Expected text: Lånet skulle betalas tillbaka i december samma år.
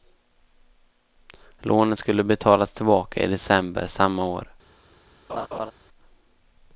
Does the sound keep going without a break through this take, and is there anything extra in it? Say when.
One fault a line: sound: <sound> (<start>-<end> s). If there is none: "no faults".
sound: laugh (5.3-5.7 s)